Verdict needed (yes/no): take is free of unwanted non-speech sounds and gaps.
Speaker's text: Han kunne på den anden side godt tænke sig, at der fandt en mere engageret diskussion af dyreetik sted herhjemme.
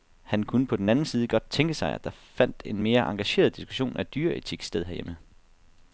yes